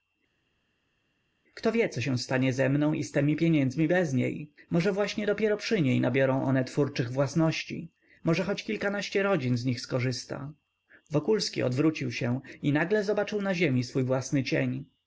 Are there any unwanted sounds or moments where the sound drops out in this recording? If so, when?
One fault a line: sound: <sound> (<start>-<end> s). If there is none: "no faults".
no faults